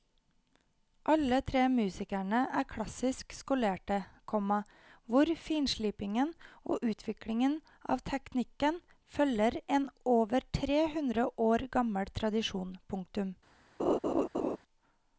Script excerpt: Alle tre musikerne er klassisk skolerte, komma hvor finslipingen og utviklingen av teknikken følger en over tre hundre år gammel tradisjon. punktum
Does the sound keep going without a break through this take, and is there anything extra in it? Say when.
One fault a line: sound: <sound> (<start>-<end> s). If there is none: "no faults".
sound: laugh (13.8-14.6 s)